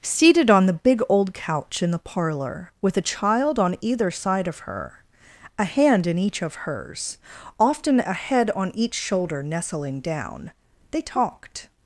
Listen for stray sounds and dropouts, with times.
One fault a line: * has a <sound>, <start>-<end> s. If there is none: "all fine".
all fine